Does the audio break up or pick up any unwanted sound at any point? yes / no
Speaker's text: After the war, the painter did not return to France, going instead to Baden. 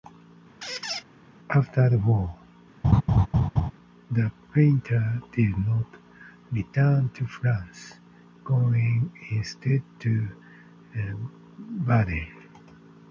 yes